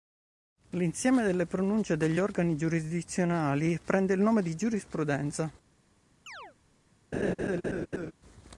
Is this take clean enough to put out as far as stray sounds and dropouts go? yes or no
no